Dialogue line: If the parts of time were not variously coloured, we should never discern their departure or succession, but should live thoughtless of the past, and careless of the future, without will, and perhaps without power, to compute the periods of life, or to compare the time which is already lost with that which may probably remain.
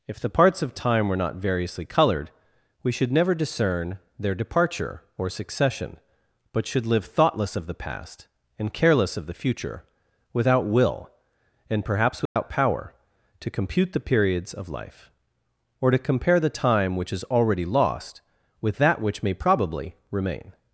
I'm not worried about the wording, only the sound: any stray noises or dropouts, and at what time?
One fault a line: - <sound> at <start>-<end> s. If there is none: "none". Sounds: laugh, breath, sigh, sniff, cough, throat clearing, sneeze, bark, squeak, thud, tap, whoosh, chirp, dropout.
- dropout at 12.3-12.4 s